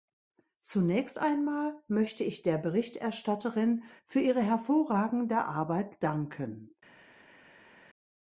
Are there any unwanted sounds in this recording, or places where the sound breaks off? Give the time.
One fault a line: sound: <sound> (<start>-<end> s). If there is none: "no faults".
no faults